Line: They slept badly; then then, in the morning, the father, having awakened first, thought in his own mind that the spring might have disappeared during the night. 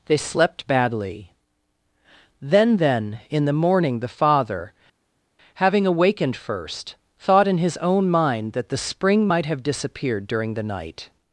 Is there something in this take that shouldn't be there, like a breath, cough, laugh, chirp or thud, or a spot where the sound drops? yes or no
no